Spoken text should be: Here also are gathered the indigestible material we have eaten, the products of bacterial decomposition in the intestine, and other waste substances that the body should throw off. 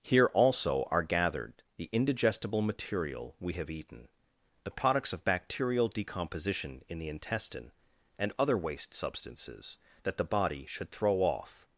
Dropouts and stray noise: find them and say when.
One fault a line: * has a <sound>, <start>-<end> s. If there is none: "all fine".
all fine